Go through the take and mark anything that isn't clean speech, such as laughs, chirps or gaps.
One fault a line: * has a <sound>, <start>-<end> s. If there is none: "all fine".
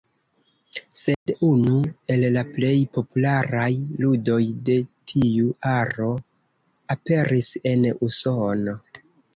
* has a dropout, 1.1-1.3 s